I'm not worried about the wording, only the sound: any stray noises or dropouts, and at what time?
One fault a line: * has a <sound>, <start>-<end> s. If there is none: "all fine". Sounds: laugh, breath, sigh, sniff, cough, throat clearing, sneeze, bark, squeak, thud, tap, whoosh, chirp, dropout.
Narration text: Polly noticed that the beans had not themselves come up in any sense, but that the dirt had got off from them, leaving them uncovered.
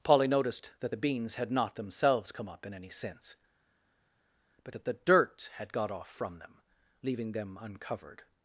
all fine